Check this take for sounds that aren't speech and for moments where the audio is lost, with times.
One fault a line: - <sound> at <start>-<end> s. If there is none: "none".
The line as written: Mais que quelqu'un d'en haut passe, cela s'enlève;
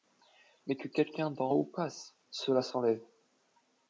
none